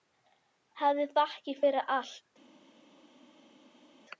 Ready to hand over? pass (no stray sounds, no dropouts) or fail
pass